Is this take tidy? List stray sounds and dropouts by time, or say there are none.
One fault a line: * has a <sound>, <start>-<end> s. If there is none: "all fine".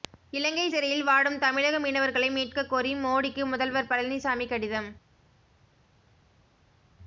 all fine